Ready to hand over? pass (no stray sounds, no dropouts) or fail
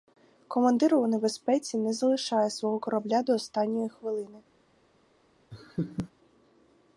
fail